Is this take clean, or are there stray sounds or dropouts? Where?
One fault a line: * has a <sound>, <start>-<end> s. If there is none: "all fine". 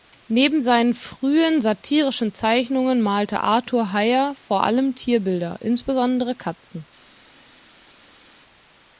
all fine